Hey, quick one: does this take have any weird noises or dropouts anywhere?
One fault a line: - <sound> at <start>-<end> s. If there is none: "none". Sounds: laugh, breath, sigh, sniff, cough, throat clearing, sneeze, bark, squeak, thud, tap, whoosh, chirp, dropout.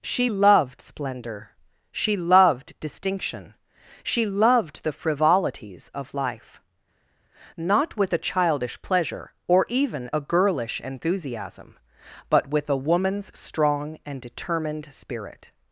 none